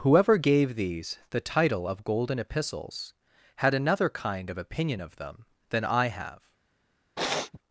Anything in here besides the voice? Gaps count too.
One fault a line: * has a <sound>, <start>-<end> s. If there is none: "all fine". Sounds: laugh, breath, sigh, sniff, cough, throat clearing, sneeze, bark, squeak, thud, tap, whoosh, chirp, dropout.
* has a sniff, 7.2-7.6 s